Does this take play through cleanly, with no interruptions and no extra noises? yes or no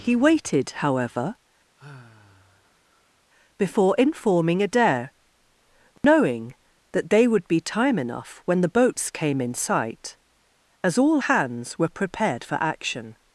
no